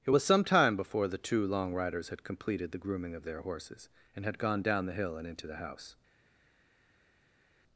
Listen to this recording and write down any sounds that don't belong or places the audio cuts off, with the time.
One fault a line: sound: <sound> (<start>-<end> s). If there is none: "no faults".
no faults